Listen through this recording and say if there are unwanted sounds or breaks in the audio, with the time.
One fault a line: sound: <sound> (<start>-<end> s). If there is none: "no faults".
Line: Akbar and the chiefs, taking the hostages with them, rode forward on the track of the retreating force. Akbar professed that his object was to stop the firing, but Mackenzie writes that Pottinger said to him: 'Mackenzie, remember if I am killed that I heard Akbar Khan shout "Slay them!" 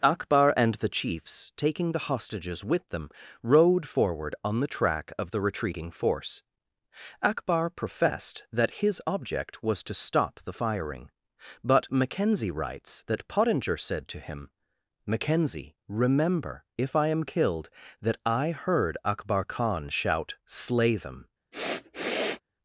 sound: sniff (21.5-22.4 s)